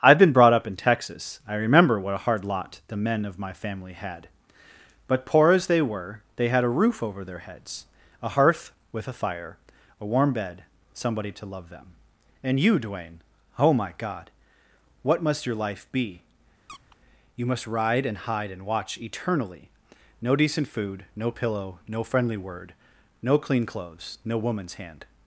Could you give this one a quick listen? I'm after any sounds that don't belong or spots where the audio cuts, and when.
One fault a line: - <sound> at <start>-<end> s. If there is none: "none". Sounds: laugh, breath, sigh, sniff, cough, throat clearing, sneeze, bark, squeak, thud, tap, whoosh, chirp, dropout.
- squeak at 16.7-17.0 s